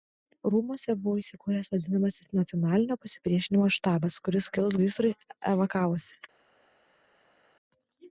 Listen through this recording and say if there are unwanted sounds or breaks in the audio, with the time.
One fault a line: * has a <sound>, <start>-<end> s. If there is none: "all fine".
all fine